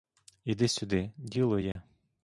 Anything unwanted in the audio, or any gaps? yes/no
yes